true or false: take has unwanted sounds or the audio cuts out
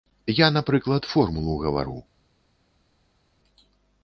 false